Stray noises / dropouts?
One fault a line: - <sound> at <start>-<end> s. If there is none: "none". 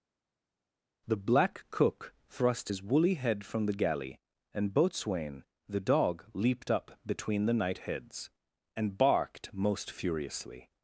none